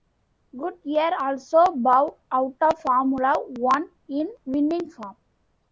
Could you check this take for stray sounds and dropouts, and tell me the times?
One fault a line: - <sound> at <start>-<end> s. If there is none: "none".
none